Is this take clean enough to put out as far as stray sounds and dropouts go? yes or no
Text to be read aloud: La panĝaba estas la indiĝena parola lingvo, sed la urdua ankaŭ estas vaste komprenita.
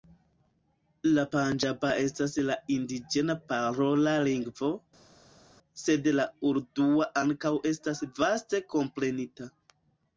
yes